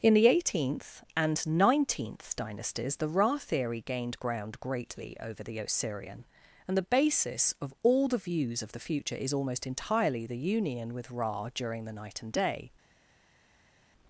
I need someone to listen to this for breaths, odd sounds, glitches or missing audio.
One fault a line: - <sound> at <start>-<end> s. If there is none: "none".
none